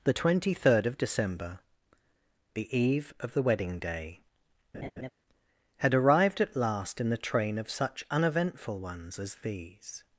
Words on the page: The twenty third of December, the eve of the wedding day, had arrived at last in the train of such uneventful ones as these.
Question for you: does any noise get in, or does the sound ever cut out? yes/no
yes